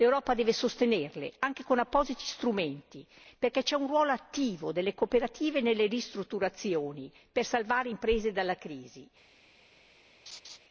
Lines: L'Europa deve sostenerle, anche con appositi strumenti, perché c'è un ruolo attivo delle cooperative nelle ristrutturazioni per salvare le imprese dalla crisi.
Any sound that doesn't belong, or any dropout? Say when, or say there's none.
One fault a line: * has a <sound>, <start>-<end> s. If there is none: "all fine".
* has a laugh, 10.3-10.6 s